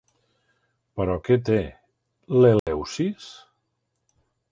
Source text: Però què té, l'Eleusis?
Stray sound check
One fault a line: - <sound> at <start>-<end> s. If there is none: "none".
- dropout at 2.6-2.7 s